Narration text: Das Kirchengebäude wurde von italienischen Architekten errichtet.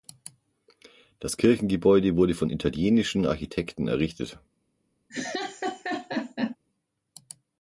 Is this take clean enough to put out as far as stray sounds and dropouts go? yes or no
no